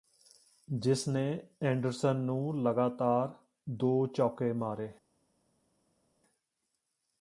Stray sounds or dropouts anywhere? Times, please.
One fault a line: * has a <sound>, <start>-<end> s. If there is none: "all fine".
all fine